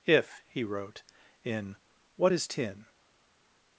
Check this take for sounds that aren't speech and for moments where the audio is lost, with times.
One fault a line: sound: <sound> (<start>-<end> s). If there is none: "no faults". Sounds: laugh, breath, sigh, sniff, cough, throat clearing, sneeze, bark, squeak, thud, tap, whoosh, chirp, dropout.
no faults